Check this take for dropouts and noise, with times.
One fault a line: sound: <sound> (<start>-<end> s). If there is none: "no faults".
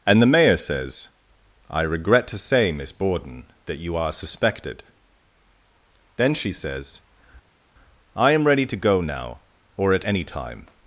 no faults